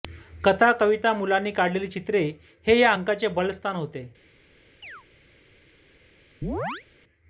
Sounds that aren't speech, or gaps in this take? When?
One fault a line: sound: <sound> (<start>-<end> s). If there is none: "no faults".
sound: chirp (4.8-5.0 s)
sound: chirp (6.4-6.9 s)